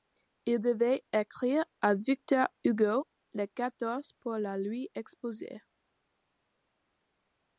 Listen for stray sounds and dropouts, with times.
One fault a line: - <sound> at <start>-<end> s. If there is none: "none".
none